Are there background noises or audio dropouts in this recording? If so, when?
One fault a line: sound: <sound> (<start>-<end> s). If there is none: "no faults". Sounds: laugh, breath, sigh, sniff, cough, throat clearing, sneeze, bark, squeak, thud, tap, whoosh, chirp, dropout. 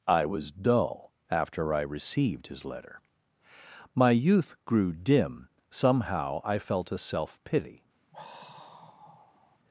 sound: sigh (8.1-9.6 s)